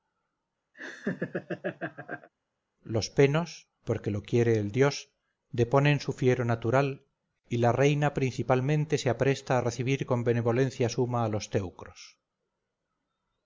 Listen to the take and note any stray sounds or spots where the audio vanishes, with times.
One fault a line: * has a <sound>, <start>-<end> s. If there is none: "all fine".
* has a laugh, 0.7-2.3 s